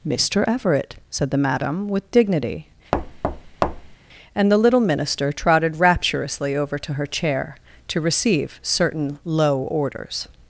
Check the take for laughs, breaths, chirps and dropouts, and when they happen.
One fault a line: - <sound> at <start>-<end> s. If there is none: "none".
- thud at 2.9-4.0 s